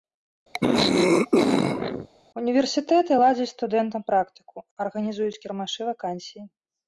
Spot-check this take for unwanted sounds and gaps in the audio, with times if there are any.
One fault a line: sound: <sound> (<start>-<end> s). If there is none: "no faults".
sound: throat clearing (0.5-2.1 s)